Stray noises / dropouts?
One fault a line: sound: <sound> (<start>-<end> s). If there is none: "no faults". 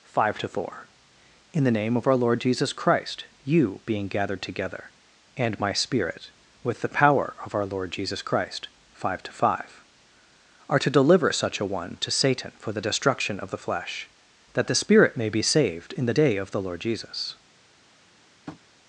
sound: tap (18.5-18.6 s)